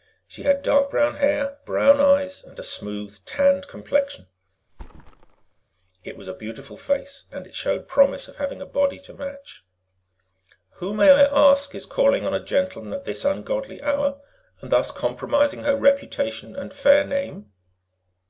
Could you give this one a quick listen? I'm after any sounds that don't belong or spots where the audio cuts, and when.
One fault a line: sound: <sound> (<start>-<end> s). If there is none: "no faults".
sound: thud (4.7-5.6 s)